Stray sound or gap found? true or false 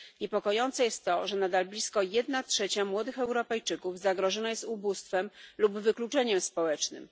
false